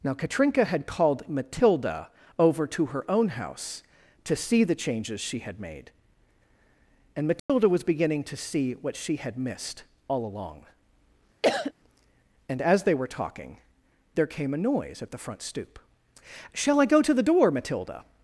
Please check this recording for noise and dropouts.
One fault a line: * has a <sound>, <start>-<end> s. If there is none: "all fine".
* has a dropout, 7.4-7.5 s
* has a cough, 11.4-11.7 s